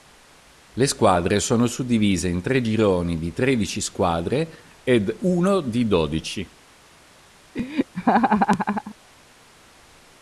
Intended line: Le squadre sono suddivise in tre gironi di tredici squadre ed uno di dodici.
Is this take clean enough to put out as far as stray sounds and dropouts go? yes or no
no